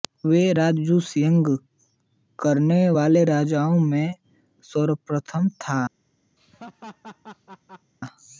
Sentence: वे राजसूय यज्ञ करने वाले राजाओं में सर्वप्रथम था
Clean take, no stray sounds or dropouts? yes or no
no